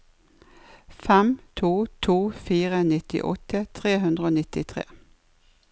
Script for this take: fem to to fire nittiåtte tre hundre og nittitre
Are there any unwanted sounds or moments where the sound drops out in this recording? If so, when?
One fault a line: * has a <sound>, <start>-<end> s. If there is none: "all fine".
all fine